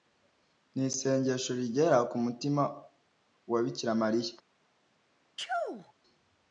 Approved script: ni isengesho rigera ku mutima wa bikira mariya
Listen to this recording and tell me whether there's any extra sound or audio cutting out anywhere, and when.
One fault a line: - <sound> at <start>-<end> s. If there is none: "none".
- sneeze at 5.4-5.9 s